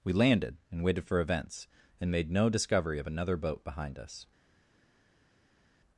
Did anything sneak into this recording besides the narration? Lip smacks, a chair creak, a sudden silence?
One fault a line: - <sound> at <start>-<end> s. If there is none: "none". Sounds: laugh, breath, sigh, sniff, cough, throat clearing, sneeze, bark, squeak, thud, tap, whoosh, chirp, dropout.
none